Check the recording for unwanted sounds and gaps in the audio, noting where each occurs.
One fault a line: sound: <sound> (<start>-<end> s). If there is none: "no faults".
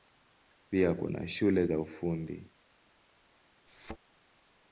sound: thud (3.7-4.0 s)